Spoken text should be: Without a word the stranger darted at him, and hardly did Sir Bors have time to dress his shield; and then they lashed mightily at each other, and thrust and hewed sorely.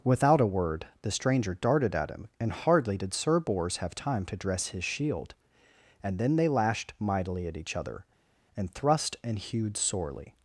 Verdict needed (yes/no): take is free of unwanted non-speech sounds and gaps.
yes